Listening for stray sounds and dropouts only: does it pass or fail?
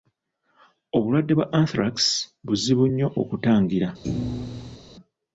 fail